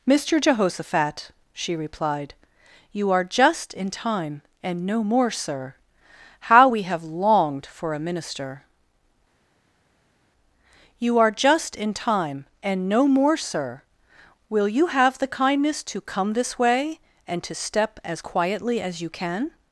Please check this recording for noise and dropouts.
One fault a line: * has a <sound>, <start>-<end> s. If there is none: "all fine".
all fine